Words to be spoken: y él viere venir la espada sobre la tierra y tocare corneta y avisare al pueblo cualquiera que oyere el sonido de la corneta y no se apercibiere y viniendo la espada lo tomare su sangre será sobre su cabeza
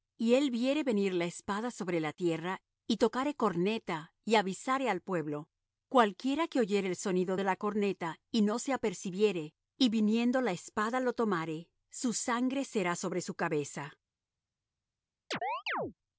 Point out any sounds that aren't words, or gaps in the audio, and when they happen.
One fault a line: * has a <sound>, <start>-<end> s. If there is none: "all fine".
* has a chirp, 15.3-15.9 s